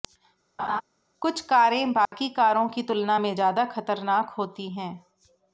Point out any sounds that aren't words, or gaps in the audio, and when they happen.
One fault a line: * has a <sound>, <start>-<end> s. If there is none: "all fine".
* has a laugh, 0.6-0.8 s
* has a dropout, 2.1-2.1 s